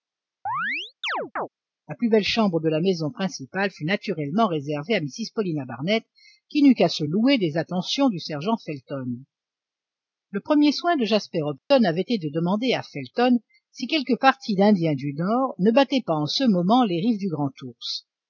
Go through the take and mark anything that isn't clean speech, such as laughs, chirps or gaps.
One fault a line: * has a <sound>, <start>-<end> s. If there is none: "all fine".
* has a chirp, 0.5-1.5 s
* has a dropout, 11.6-11.7 s